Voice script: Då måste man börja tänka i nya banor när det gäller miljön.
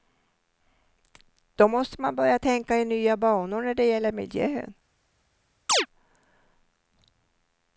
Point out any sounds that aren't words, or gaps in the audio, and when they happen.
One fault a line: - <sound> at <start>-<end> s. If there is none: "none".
- chirp at 5.7-5.9 s